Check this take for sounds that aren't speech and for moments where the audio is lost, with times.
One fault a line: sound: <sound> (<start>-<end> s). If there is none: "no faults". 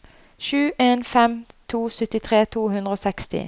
no faults